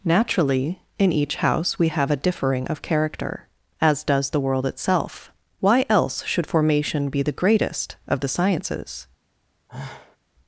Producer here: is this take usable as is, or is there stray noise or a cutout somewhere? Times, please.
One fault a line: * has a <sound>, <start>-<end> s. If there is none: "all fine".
* has a sigh, 9.7-10.2 s